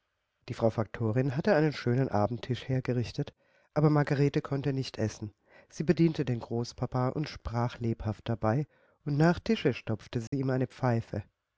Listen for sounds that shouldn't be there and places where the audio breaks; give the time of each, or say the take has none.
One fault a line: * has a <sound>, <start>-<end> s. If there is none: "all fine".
* has a dropout, 10.3-10.3 s